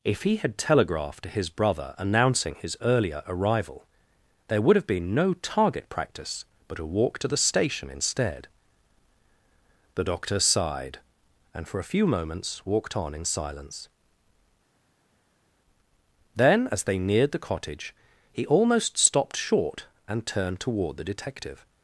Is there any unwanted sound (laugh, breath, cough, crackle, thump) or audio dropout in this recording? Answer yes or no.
no